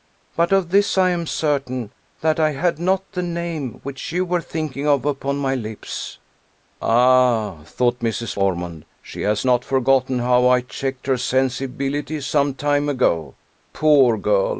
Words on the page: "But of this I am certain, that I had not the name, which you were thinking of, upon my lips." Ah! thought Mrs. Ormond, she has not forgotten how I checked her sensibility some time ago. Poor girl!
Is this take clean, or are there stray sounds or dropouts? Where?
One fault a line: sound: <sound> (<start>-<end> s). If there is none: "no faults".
no faults